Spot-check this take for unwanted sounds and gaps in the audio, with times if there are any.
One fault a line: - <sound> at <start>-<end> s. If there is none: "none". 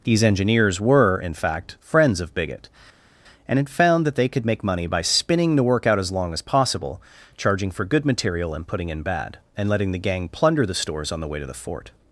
none